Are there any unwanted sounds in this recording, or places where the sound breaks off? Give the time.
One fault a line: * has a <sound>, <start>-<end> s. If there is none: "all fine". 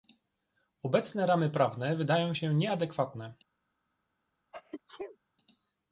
* has a sneeze, 4.5-5.2 s